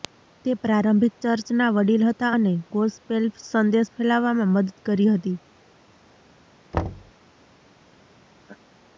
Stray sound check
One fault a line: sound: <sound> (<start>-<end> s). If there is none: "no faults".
sound: thud (6.7-7.1 s)
sound: laugh (8.4-8.6 s)